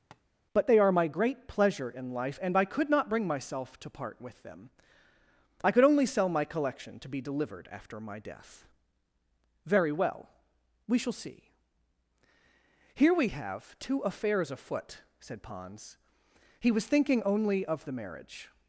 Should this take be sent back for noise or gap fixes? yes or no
yes